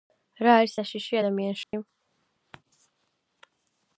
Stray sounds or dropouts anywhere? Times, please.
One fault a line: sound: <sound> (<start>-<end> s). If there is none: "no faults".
sound: dropout (1.6-1.7 s)